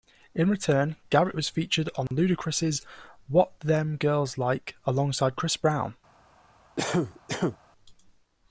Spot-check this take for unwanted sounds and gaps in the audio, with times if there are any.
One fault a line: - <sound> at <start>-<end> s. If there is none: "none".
- dropout at 2.1-2.1 s
- cough at 6.8-7.6 s